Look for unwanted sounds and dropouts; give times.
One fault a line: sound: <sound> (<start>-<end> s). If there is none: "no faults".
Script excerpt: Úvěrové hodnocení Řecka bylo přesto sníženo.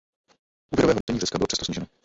sound: dropout (1.0-1.1 s)